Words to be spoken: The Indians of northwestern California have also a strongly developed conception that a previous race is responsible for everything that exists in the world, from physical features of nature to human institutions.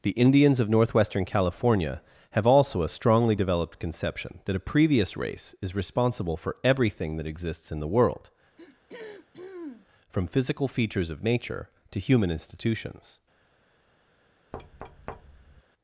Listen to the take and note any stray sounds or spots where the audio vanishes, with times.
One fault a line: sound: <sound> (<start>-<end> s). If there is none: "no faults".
sound: throat clearing (8.6-9.9 s)
sound: thud (14.5-15.6 s)